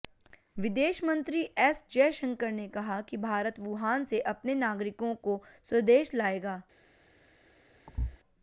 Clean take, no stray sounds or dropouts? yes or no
no